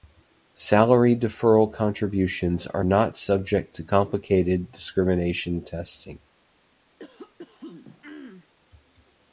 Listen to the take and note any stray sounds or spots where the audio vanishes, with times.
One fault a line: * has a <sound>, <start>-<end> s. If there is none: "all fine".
* has a throat clearing, 7.0-8.5 s